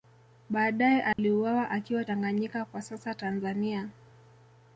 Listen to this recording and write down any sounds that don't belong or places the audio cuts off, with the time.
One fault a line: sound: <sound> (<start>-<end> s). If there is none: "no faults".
sound: dropout (1.1-1.2 s)